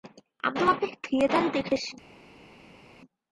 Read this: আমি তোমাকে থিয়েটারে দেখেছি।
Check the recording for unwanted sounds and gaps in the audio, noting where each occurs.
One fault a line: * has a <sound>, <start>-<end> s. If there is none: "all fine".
all fine